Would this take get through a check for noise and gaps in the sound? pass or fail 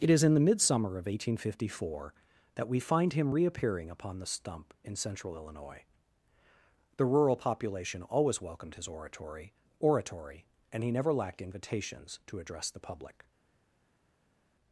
pass